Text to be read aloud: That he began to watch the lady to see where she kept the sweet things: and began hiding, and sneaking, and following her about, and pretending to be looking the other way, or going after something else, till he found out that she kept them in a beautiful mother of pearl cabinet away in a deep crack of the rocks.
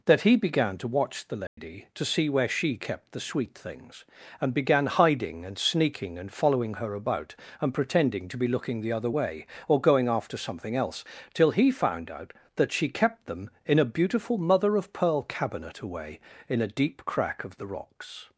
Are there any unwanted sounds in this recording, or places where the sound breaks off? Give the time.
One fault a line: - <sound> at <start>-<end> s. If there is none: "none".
- dropout at 1.5-1.6 s